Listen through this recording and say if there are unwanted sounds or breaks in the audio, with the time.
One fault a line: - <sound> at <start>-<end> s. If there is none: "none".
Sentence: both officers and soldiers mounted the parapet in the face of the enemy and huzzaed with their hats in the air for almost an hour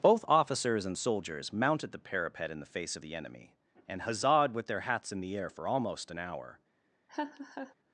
- laugh at 7.1-7.7 s